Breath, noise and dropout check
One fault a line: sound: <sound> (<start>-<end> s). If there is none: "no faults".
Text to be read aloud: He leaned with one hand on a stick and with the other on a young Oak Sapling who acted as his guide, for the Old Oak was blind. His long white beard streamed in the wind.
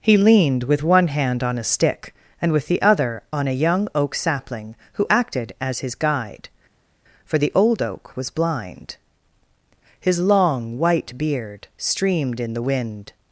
no faults